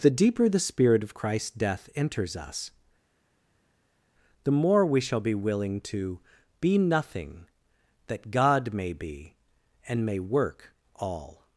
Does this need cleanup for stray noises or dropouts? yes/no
no